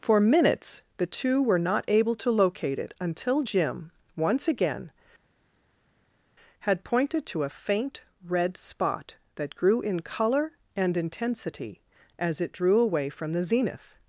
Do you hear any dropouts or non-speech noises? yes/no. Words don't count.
no